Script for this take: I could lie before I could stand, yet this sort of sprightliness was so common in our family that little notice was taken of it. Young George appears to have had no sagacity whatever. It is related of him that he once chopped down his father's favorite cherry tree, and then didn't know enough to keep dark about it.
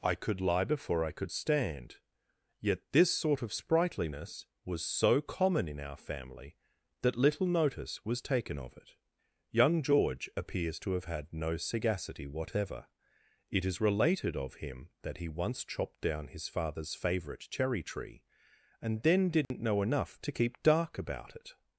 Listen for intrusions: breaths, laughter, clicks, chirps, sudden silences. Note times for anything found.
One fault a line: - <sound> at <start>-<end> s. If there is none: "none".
- dropout at 19.4-19.5 s